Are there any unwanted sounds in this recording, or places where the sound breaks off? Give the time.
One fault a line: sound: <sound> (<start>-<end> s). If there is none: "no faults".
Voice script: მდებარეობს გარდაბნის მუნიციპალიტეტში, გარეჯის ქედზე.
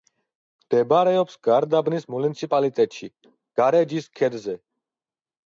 no faults